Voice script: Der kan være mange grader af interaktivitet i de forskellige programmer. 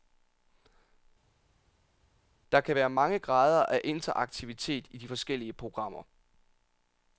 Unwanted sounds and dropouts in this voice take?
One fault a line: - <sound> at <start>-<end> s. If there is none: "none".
none